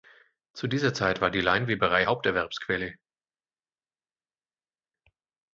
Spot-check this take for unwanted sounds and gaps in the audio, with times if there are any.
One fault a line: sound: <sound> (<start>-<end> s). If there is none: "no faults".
no faults